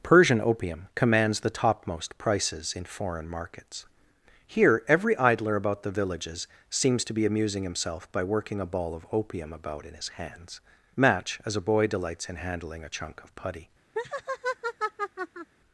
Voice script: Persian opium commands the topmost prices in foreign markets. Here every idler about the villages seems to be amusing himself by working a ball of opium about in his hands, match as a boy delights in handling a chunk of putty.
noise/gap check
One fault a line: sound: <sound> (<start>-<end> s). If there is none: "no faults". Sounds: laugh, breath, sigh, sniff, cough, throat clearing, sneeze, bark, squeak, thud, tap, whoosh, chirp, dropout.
sound: laugh (14.0-15.5 s)